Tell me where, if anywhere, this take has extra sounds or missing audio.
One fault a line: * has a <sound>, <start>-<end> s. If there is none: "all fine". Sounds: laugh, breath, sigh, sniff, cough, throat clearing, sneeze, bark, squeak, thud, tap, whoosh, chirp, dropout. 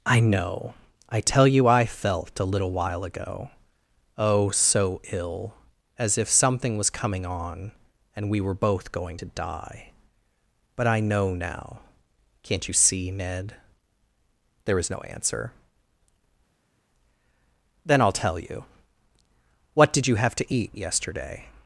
all fine